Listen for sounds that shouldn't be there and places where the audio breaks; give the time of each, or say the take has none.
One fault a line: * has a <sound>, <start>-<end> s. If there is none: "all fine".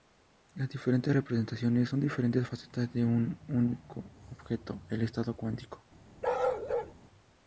* has a bark, 6.2-6.9 s